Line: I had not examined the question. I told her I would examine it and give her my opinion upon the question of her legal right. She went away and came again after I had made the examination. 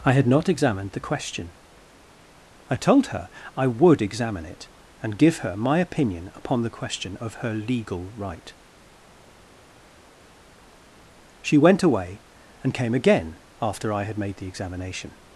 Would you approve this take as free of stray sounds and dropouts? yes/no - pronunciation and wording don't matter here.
yes